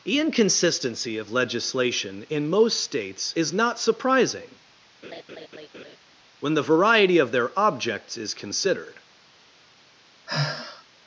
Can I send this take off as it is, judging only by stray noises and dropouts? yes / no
no